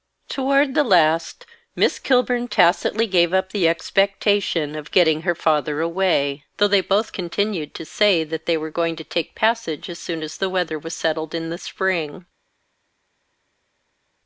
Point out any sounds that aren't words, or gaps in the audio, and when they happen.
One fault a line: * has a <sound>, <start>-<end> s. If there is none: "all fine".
all fine